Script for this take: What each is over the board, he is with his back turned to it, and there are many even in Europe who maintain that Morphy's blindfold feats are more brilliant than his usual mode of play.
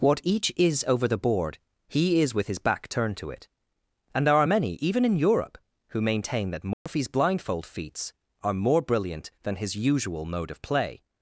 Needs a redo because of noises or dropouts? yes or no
yes